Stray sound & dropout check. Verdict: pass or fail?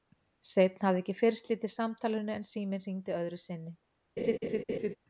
fail